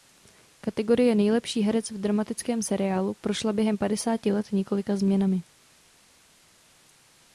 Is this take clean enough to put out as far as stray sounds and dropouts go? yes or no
yes